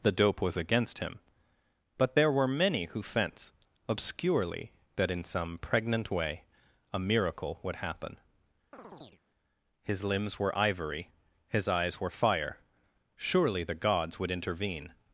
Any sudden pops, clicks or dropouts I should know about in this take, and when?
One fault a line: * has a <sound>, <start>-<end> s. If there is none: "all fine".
* has a chirp, 8.7-9.2 s